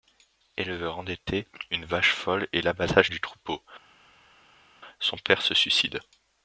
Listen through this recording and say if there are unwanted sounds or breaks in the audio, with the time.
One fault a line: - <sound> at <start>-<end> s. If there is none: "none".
none